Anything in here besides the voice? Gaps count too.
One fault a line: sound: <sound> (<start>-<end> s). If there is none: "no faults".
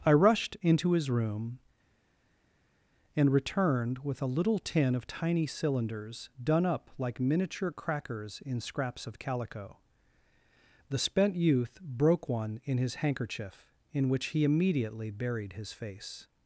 no faults